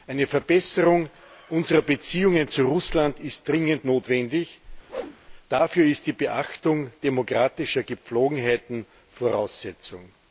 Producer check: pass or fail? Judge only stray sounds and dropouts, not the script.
fail